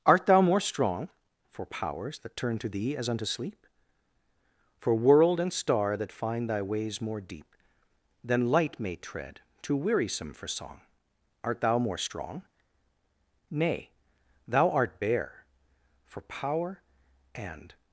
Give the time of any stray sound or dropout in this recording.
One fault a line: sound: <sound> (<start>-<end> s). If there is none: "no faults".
no faults